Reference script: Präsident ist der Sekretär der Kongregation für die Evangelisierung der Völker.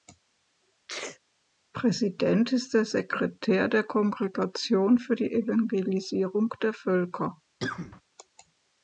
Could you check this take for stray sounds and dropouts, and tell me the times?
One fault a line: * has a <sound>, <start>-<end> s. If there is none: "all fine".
* has a sneeze, 0.9-1.2 s
* has a cough, 7.6-8.0 s